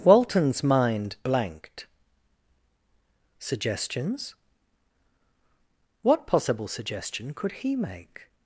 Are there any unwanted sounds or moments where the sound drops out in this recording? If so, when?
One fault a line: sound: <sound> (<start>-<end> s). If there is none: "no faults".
no faults